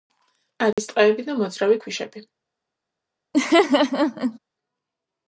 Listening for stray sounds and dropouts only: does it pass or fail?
fail